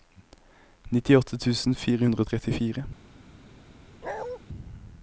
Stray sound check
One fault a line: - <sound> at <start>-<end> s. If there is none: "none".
- bark at 4.0-4.4 s